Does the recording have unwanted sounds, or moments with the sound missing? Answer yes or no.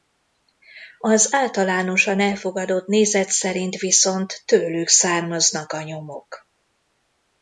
no